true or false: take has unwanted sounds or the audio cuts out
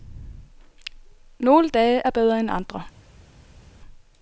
false